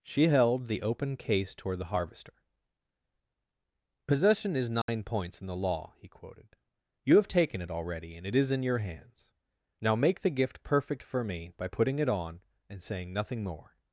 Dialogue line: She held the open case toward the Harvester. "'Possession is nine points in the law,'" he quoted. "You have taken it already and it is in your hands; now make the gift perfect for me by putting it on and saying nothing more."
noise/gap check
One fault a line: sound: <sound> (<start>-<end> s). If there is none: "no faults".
sound: dropout (4.8-4.9 s)